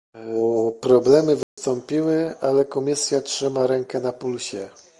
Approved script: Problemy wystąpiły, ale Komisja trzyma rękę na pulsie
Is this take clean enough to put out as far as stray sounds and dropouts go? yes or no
no